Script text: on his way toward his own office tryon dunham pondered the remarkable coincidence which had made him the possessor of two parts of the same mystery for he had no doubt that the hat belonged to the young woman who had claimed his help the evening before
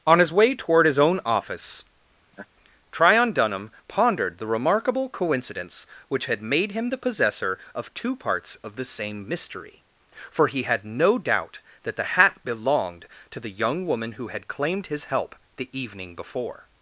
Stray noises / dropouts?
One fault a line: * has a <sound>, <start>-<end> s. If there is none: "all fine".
* has a laugh, 2.3-2.5 s